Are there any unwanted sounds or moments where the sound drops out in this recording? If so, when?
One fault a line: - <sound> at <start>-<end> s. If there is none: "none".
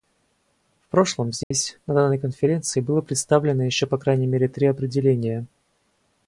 - dropout at 1.4-1.5 s